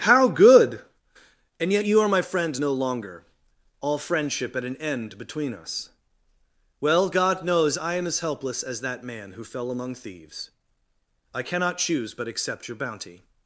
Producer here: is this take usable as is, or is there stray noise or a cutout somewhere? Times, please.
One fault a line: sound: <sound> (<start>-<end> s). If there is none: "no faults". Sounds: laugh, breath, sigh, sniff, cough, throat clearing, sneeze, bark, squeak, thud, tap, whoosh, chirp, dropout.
no faults